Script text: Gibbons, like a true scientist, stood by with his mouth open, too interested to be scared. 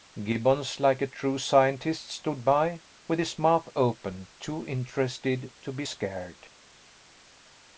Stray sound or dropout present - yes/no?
no